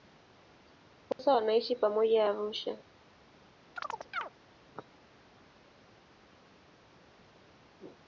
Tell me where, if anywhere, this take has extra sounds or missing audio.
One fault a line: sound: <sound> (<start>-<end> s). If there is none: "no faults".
sound: dropout (1.1-1.2 s)
sound: chirp (3.8-4.3 s)